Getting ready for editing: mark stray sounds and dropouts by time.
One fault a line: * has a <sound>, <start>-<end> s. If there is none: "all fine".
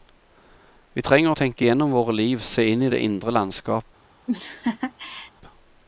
* has a laugh, 4.3-5.3 s